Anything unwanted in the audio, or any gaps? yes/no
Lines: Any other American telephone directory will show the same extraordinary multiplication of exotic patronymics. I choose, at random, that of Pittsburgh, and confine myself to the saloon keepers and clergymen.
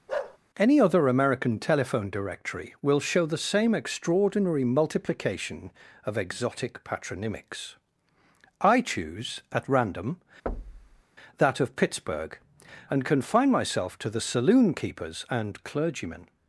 yes